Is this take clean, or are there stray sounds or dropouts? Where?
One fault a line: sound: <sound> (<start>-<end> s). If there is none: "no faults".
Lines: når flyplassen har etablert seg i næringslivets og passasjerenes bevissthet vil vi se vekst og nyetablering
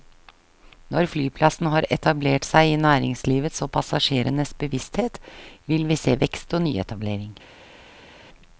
no faults